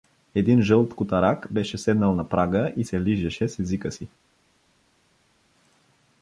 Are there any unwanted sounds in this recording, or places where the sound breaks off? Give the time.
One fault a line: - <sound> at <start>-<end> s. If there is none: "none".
none